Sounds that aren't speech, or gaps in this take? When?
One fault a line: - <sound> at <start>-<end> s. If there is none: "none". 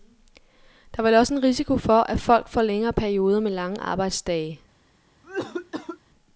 - cough at 5.2-6.0 s